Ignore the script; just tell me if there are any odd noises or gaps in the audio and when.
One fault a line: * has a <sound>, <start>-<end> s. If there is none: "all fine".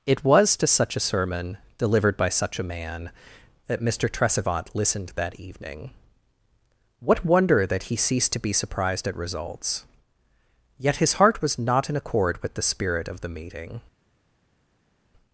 all fine